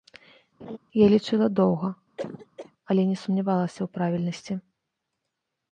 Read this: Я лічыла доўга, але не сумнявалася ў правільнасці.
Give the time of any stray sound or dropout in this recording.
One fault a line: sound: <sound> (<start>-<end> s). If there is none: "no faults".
sound: laugh (0.6-0.8 s)
sound: cough (2.2-2.7 s)